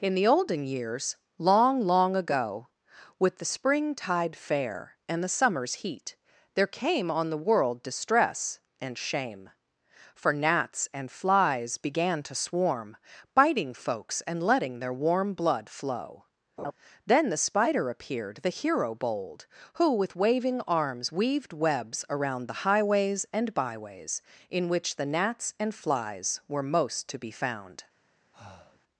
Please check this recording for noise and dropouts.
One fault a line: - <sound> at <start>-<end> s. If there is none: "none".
- laugh at 16.6-16.7 s
- breath at 28.3-28.8 s